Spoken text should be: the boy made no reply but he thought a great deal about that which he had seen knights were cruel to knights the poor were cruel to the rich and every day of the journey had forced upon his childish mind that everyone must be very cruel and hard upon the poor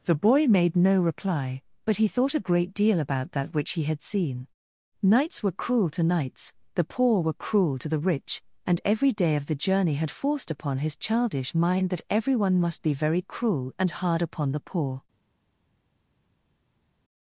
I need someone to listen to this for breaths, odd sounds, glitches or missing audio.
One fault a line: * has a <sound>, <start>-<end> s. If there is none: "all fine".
all fine